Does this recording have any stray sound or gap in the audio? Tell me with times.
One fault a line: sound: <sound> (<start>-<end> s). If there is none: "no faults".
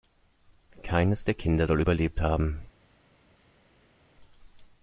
no faults